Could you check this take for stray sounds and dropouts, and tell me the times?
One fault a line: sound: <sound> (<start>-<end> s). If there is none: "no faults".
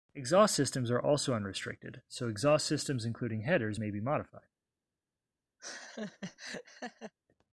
sound: laugh (5.6-7.1 s)